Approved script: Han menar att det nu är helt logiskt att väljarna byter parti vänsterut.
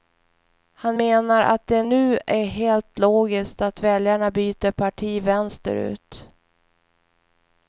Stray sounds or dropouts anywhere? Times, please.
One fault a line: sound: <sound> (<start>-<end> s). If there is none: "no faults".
no faults